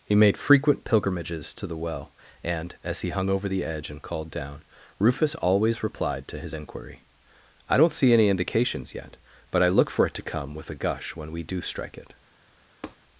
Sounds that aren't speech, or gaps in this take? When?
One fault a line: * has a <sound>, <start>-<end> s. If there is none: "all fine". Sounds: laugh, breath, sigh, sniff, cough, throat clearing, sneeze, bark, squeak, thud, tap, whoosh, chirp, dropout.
* has a tap, 12.8-13.0 s